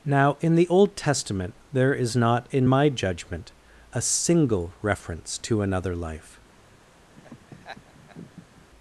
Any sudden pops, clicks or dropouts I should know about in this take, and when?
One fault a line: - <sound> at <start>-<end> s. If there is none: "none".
- laugh at 7.2-8.7 s